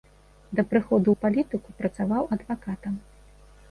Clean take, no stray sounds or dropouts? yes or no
yes